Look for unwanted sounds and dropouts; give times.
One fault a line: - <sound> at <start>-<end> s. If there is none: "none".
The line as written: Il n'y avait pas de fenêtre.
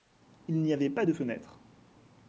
none